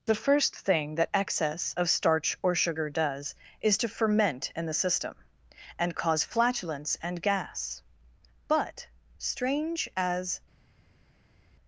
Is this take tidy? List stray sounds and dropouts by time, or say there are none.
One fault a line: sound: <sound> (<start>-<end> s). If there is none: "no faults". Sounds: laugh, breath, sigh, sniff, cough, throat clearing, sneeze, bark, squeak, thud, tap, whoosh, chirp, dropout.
no faults